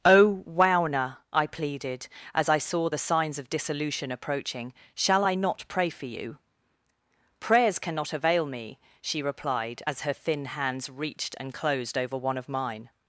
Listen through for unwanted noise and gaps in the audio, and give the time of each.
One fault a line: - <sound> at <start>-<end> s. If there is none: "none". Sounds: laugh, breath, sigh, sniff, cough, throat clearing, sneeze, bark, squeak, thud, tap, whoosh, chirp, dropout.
none